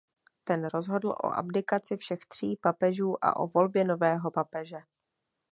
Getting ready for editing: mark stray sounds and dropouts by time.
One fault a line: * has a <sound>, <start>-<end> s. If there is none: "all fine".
all fine